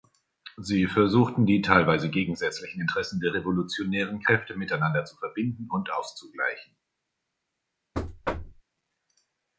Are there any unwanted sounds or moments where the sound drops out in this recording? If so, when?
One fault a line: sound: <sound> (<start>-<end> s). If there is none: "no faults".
sound: thud (7.9-8.6 s)